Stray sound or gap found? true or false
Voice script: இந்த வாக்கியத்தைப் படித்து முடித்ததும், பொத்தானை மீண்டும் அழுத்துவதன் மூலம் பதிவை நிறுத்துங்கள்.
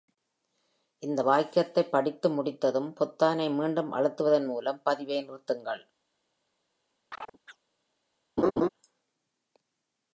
true